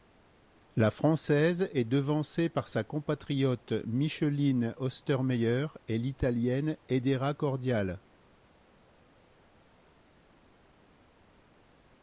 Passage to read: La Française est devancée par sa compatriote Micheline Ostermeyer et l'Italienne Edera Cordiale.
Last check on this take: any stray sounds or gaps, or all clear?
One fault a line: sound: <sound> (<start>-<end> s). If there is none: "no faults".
no faults